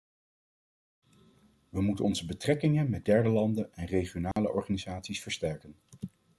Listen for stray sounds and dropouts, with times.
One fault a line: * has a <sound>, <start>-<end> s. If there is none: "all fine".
* has a dropout, 4.3-4.4 s